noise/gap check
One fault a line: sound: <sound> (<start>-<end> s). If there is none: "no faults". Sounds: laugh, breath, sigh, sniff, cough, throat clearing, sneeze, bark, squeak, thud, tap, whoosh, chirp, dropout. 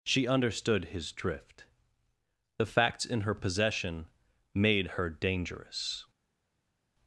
no faults